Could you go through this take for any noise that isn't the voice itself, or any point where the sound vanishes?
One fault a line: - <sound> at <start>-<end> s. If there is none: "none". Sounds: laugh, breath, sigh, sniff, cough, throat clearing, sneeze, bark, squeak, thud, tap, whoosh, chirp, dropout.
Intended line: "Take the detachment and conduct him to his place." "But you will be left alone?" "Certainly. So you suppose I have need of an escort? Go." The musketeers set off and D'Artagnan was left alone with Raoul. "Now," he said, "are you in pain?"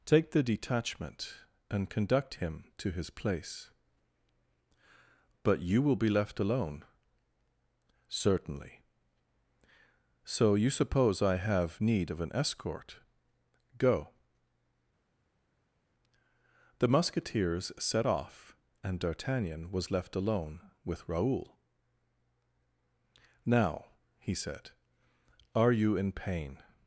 none